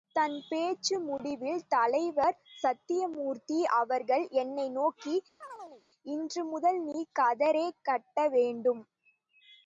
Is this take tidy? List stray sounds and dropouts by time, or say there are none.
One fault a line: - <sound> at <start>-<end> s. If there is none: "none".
- chirp at 5.4-5.8 s